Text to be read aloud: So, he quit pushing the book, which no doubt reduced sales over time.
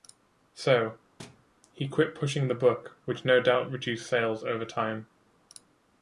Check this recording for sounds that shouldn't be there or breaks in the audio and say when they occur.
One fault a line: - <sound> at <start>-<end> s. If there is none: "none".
- thud at 1.2-1.5 s